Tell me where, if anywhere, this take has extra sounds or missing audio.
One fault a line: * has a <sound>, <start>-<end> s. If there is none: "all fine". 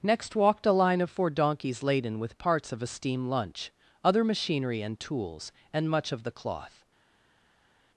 all fine